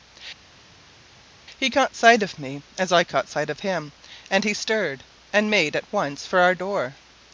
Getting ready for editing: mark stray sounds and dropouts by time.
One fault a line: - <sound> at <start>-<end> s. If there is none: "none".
none